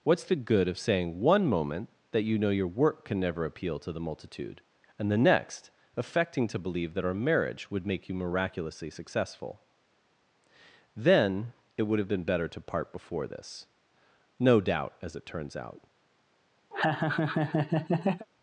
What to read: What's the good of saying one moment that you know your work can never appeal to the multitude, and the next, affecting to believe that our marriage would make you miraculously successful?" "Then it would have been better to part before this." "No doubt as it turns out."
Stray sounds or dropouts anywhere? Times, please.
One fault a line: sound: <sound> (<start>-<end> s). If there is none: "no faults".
sound: laugh (16.7-18.3 s)